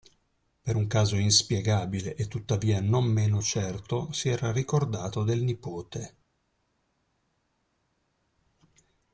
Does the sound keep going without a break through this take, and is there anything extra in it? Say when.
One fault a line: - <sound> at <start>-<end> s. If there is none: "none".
none